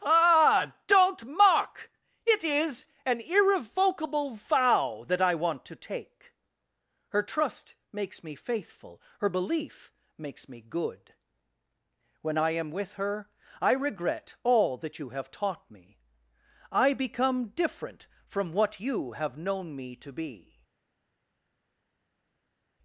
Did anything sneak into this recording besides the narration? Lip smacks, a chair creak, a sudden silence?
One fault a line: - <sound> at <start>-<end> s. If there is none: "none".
none